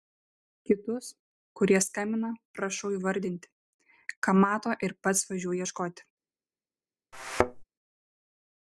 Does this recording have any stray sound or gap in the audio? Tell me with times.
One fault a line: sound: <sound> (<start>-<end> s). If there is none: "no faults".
sound: thud (7.1-7.6 s)